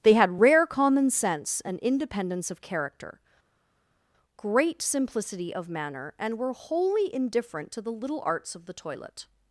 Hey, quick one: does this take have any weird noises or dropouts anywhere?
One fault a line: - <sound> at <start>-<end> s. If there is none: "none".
none